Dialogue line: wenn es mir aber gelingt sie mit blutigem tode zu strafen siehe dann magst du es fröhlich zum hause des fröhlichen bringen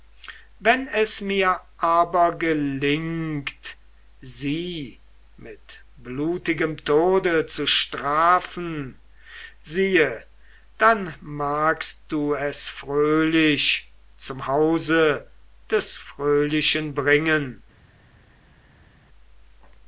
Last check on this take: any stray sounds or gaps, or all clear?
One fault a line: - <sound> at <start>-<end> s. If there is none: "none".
none